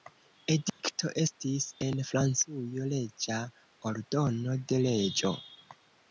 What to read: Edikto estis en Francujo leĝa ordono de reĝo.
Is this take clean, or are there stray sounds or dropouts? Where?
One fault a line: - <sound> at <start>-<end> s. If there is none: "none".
- dropout at 0.7-0.8 s